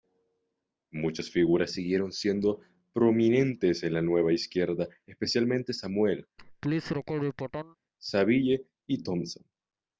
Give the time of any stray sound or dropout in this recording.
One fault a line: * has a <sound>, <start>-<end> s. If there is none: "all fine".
* has a laugh, 6.4-7.8 s